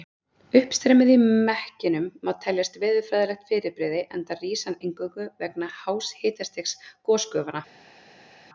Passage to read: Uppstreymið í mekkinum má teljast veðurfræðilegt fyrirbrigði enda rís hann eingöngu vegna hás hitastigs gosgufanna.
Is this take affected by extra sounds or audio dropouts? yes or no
no